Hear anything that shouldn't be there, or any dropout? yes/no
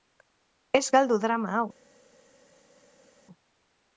no